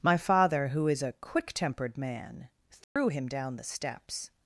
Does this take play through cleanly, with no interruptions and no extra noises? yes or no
no